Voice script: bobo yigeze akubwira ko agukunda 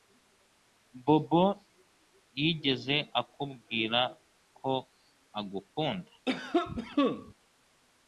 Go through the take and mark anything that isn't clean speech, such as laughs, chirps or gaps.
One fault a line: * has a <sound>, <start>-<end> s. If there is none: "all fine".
* has a cough, 6.3-7.3 s